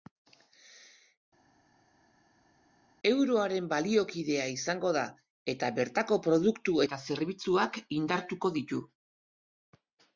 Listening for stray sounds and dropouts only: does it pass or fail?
pass